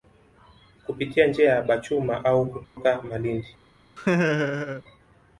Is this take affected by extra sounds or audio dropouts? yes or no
yes